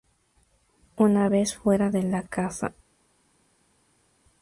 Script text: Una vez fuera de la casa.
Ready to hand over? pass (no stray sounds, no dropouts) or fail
pass